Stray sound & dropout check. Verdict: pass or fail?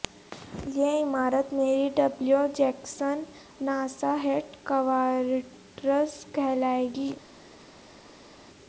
pass